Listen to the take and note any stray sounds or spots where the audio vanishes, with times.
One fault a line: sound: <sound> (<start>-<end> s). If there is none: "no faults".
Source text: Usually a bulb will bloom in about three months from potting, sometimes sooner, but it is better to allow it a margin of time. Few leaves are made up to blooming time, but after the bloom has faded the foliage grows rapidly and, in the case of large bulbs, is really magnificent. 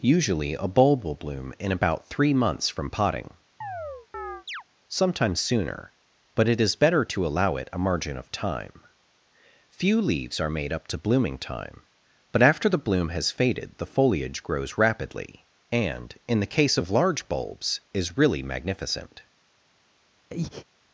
sound: chirp (3.6-4.6 s)
sound: breath (20.3-20.7 s)